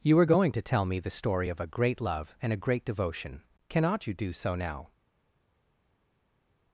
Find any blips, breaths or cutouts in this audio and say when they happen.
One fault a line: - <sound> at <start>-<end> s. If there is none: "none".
none